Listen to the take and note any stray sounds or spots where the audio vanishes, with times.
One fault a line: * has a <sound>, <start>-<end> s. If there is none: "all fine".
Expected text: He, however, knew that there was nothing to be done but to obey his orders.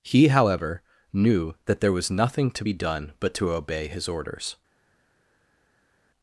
all fine